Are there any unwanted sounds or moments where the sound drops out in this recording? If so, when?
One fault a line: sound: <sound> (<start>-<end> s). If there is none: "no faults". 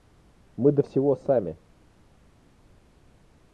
no faults